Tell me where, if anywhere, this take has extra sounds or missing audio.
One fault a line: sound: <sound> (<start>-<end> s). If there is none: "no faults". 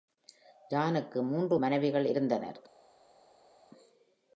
no faults